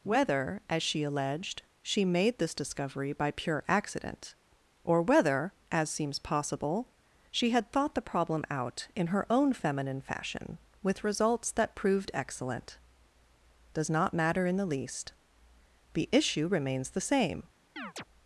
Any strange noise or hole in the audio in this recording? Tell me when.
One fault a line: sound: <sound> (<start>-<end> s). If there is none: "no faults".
sound: chirp (17.8-18.0 s)